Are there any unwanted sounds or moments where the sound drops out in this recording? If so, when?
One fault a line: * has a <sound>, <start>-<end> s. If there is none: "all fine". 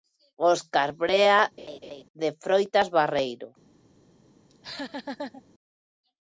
* has a laugh, 1.6-2.0 s
* has a laugh, 4.5-5.4 s